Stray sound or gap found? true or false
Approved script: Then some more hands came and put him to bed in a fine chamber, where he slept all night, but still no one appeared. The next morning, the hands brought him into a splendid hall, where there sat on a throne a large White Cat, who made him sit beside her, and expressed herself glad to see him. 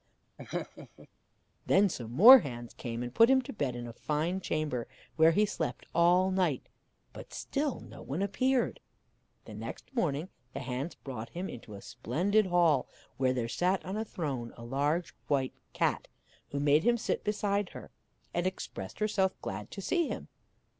true